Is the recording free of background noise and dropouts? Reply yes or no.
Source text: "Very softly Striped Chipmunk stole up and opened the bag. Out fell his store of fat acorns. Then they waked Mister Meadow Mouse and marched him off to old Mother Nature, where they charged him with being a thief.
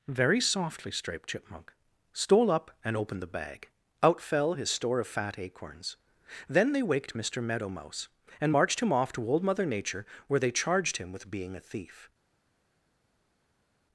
yes